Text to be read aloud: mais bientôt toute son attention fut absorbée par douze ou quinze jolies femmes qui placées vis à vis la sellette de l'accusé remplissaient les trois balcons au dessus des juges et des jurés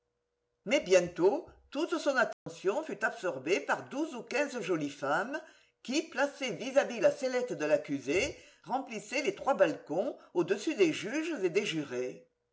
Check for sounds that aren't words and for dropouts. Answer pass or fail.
fail